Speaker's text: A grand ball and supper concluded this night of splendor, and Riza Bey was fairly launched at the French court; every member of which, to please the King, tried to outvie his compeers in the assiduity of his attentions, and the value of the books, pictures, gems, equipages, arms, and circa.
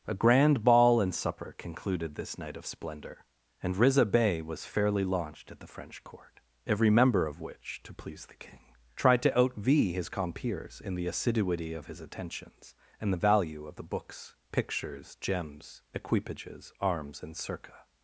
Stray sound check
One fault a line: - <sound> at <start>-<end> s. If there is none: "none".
none